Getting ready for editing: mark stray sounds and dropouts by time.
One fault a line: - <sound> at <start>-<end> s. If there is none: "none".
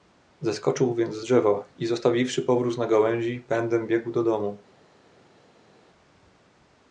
none